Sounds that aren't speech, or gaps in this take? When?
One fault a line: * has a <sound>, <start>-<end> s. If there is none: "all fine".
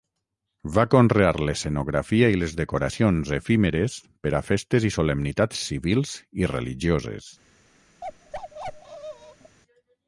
* has a bark, 8.0-9.6 s